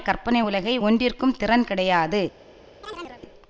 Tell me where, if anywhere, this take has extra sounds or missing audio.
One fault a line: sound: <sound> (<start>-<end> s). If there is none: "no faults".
sound: chirp (2.8-3.2 s)